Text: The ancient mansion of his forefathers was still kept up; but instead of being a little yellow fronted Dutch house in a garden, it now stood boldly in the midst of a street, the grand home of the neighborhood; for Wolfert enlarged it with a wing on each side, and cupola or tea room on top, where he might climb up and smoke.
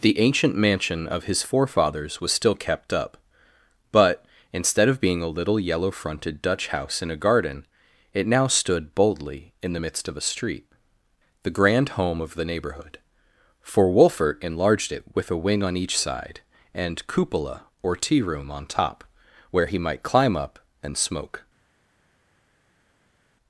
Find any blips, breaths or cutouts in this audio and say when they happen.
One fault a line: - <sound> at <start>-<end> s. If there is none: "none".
none